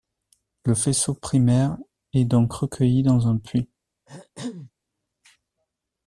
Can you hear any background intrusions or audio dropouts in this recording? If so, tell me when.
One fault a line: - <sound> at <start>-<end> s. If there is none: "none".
- throat clearing at 4.1-4.7 s